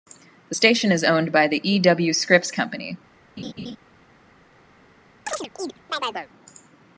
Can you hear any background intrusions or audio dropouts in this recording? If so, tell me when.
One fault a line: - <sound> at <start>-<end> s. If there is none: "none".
- laugh at 3.4-3.8 s
- chirp at 5.3-6.3 s